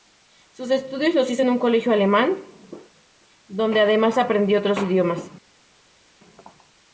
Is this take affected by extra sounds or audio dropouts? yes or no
no